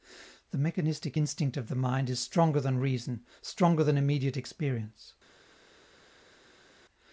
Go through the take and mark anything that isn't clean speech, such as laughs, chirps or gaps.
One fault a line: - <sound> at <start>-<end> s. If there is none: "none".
none